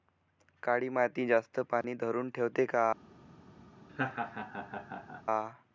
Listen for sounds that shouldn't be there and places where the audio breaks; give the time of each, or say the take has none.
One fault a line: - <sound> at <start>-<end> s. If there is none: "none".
- dropout at 1.8-1.8 s
- laugh at 3.9-5.2 s